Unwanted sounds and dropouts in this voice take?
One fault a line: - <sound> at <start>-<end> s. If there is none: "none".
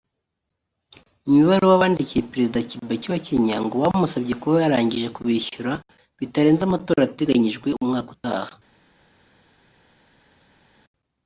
none